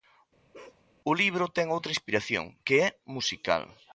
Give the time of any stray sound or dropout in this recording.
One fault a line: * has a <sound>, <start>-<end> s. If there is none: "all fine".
* has a bark, 0.5-0.8 s